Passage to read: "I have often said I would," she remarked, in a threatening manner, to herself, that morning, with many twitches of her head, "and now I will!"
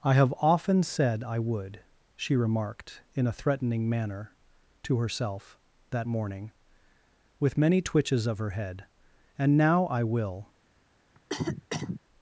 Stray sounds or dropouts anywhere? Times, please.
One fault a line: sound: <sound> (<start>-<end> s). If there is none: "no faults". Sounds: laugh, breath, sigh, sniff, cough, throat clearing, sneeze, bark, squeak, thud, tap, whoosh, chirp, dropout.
sound: cough (11.2-12.0 s)